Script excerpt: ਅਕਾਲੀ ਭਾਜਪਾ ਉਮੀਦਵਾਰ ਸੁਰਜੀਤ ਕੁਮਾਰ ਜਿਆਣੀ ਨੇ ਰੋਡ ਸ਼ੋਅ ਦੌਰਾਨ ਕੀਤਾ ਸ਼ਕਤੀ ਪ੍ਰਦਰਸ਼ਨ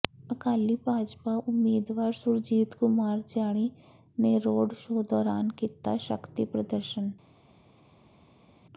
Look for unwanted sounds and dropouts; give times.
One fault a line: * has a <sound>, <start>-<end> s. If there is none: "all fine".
all fine